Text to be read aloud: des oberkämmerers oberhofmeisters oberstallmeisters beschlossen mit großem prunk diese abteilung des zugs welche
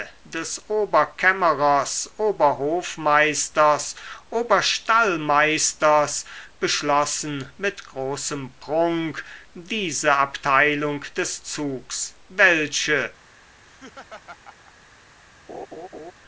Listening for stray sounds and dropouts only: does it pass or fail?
fail